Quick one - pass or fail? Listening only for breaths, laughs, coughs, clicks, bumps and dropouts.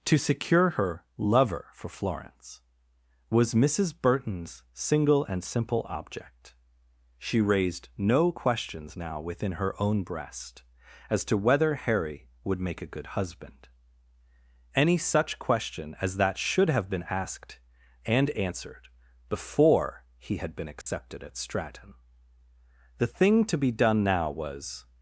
fail